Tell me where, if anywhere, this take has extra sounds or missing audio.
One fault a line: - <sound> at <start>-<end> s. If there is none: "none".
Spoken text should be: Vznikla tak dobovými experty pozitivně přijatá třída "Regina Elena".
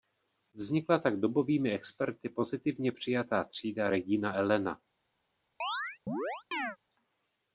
- chirp at 5.6-6.8 s